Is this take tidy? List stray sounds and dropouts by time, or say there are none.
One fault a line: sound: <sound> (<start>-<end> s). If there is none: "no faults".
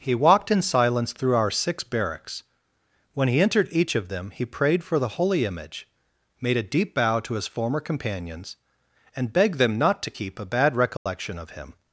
sound: dropout (11.0-11.1 s)